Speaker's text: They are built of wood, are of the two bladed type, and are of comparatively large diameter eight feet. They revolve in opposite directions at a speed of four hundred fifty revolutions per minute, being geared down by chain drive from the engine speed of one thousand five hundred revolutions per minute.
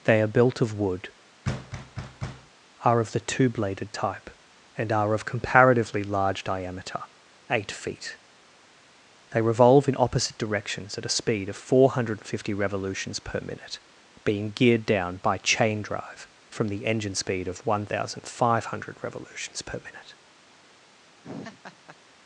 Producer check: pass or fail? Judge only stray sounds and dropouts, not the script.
fail